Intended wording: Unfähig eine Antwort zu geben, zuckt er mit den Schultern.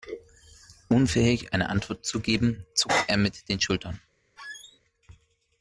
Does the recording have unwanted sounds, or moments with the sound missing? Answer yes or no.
yes